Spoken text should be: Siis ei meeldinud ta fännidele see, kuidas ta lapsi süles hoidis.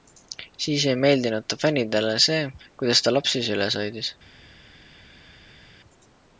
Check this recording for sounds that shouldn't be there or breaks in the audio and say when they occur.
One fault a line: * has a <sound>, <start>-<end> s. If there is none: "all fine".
all fine